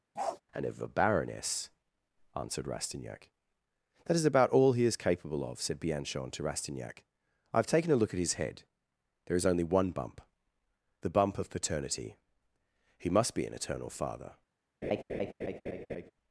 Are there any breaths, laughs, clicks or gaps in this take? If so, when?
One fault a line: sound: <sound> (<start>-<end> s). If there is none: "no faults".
sound: bark (0.2-0.4 s)
sound: laugh (14.8-16.1 s)